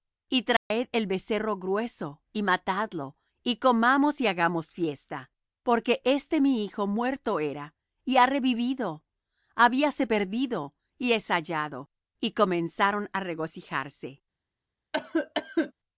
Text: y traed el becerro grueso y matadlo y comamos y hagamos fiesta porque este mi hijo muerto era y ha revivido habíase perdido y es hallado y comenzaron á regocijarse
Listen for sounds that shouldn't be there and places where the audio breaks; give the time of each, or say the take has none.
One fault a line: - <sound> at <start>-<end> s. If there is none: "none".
- dropout at 0.6-0.7 s
- cough at 14.9-15.7 s